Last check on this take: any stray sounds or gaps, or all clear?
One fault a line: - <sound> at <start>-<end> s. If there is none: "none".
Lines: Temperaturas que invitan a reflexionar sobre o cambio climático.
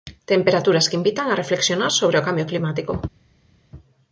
none